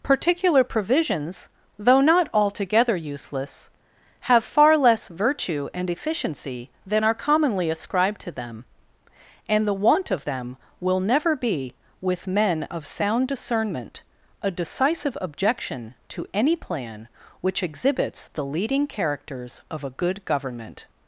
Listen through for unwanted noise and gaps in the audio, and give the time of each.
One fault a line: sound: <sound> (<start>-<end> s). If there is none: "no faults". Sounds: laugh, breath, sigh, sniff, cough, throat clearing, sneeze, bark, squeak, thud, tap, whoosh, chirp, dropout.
no faults